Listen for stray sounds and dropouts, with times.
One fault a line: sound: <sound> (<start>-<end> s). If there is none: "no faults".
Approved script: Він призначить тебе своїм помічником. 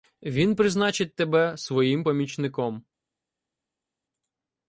no faults